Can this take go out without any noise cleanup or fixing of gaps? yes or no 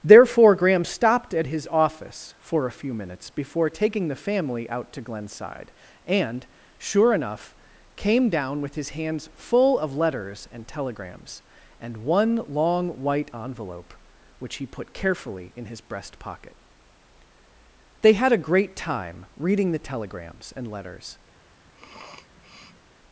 no